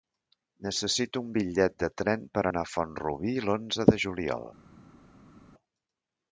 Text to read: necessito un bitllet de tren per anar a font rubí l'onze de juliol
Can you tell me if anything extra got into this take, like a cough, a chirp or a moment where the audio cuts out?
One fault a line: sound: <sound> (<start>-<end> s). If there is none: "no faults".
no faults